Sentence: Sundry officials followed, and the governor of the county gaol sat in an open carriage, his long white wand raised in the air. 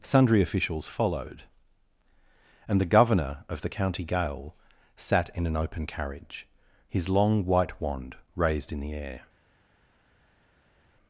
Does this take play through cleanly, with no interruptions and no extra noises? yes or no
yes